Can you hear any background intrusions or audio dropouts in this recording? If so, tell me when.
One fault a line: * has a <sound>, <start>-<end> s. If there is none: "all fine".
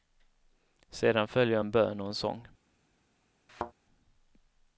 * has a thud, 3.5-3.7 s